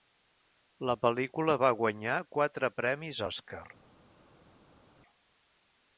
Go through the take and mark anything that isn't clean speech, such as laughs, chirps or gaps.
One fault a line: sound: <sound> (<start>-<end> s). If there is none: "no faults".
no faults